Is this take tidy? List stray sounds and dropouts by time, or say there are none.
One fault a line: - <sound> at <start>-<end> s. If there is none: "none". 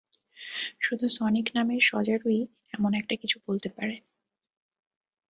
none